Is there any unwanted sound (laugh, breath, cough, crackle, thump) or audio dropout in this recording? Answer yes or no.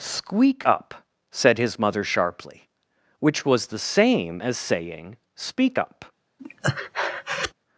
yes